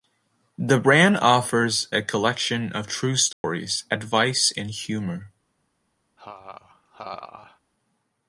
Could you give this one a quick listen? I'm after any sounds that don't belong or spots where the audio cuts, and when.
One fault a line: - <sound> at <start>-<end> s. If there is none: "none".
- dropout at 3.3-3.4 s
- laugh at 6.2-7.6 s